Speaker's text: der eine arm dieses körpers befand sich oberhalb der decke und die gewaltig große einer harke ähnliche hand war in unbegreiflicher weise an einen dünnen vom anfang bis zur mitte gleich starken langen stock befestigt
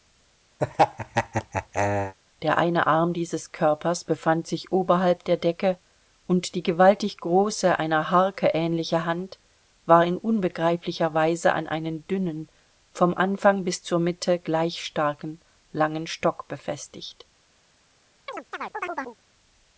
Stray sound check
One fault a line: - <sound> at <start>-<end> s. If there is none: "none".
- laugh at 0.6-2.1 s
- chirp at 18.3-19.2 s